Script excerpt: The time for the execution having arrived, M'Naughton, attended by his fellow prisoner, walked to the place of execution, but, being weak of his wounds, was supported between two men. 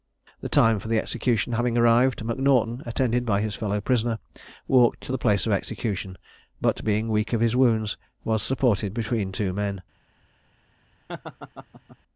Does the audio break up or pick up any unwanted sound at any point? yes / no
yes